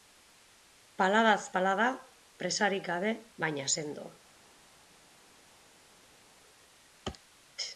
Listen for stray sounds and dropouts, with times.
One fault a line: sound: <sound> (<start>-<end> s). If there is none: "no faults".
no faults